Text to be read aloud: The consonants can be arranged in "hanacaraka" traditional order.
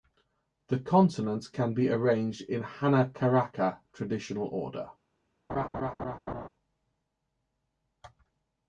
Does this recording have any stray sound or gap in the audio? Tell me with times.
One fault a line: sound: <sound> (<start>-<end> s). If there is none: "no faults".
sound: laugh (5.5-6.5 s)